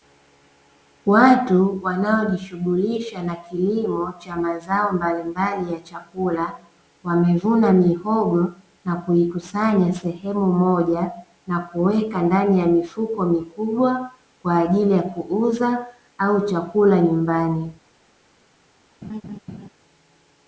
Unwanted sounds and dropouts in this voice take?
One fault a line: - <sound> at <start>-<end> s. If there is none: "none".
- laugh at 19.0-19.7 s